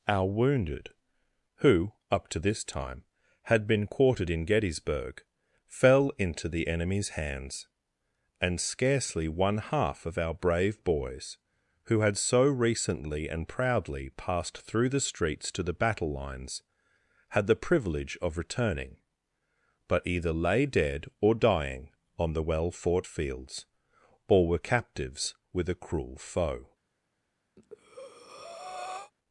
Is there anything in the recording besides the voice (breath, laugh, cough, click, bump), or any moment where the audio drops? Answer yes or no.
yes